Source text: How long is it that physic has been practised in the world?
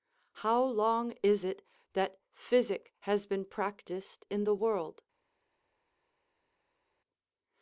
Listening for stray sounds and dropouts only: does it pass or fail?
pass